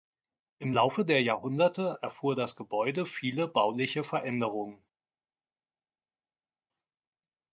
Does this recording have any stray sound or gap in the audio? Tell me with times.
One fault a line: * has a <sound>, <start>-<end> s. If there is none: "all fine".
all fine